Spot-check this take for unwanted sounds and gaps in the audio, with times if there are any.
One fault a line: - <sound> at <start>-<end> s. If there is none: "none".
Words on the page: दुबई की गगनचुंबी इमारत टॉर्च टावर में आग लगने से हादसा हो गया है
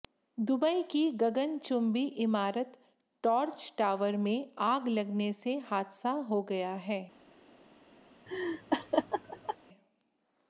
- laugh at 8.3-9.6 s